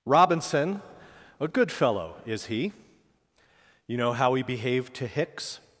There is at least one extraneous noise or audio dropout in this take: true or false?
false